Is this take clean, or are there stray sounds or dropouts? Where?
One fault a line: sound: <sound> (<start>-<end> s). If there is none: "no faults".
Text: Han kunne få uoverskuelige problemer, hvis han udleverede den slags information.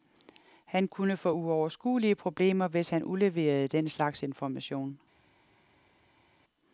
no faults